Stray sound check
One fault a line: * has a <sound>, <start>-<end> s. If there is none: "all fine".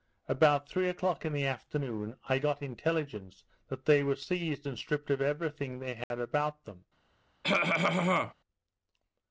* has a dropout, 6.0-6.1 s
* has a cough, 7.4-8.3 s